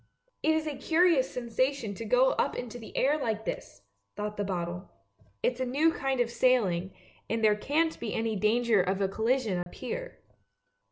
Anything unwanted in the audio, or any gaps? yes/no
yes